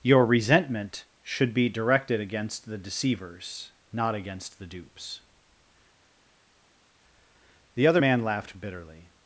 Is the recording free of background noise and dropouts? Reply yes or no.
yes